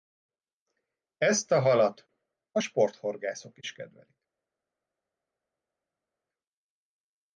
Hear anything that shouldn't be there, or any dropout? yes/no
no